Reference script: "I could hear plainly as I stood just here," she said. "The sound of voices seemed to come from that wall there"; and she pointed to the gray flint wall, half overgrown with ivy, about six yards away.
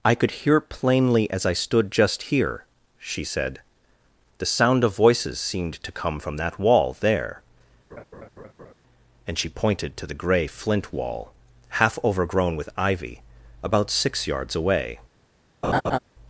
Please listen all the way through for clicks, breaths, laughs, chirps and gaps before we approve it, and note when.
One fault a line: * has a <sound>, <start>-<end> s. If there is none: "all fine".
* has a laugh, 7.9-8.7 s
* has a laugh, 15.6-16.0 s